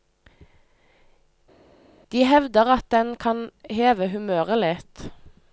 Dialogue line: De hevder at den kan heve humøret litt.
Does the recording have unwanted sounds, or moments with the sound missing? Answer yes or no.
no